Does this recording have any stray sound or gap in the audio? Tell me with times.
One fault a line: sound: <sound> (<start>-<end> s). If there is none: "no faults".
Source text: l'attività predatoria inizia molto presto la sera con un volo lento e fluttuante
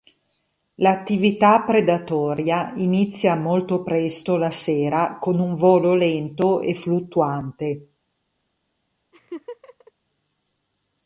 sound: laugh (9.1-9.9 s)